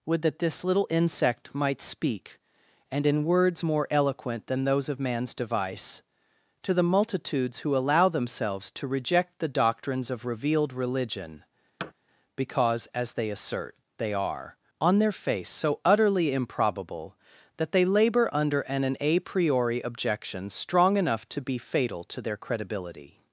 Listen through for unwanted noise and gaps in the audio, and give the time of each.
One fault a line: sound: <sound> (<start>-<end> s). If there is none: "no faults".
sound: thud (11.8-11.9 s)